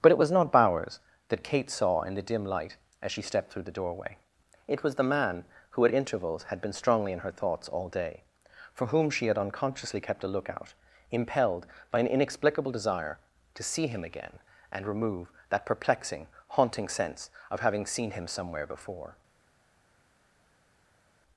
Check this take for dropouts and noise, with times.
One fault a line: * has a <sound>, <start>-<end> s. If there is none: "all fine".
all fine